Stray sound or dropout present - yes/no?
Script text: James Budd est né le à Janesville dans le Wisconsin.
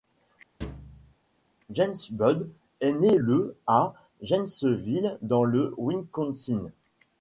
yes